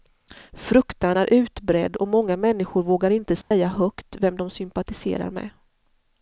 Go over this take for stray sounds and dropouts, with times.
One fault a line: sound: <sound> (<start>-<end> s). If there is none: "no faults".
sound: dropout (3.4-3.5 s)